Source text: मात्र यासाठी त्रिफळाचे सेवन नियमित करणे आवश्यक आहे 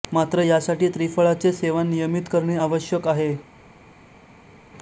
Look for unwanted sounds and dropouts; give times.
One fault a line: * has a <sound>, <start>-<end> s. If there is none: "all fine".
all fine